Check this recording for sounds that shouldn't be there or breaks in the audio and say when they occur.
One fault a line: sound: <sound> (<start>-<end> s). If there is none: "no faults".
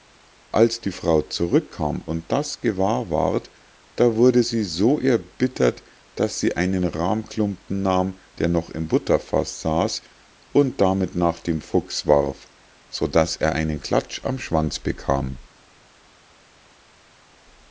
no faults